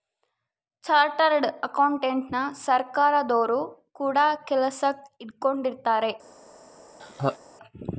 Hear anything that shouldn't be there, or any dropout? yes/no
yes